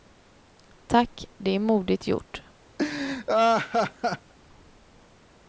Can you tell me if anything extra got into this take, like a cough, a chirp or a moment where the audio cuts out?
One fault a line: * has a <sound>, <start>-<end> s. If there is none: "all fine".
* has a laugh, 2.8-4.3 s